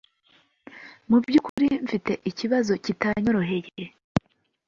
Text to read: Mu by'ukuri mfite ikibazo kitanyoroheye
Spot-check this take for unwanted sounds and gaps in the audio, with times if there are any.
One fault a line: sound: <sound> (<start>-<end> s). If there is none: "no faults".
sound: dropout (1.5-1.6 s)